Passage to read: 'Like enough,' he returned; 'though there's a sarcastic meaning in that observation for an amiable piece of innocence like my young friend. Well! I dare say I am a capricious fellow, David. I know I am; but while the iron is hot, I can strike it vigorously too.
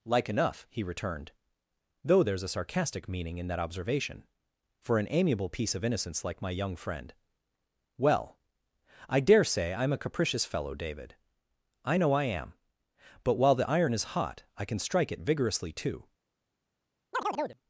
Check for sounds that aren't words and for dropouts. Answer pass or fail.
fail